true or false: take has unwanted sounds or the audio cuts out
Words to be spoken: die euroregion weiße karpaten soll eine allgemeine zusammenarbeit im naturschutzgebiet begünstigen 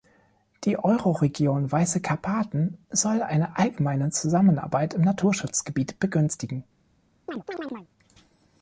true